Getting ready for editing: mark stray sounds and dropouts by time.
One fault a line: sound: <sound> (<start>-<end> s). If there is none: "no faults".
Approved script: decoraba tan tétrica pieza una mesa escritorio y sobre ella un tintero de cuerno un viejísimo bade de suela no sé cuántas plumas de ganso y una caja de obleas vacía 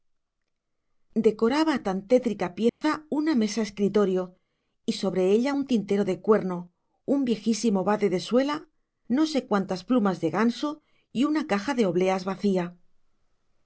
sound: dropout (2.7-2.8 s)